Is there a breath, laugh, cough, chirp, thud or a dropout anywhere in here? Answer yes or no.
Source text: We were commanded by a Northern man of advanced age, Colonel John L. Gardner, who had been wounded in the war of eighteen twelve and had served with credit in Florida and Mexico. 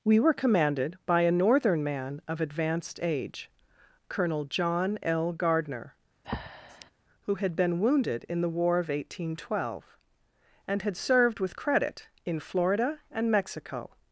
yes